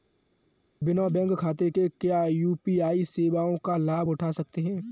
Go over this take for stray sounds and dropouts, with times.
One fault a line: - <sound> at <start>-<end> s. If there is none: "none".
none